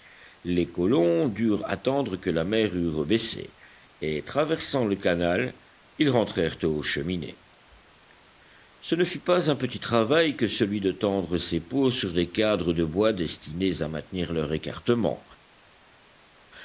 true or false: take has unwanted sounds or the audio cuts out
false